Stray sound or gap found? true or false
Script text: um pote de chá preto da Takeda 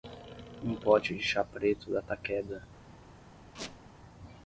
true